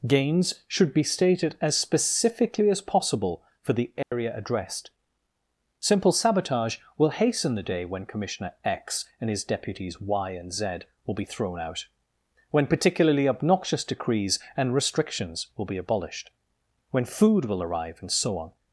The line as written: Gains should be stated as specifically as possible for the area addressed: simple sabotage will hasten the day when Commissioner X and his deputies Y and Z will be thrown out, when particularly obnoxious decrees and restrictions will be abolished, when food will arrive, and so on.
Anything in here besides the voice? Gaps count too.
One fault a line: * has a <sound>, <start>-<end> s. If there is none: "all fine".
* has a dropout, 4.0-4.1 s